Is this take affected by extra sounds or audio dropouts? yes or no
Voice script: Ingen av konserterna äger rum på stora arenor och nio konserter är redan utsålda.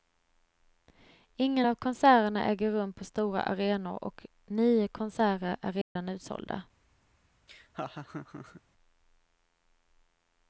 yes